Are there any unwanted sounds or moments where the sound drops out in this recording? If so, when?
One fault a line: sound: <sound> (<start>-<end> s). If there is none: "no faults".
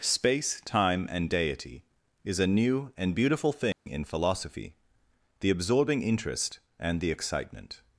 sound: dropout (3.7-3.9 s)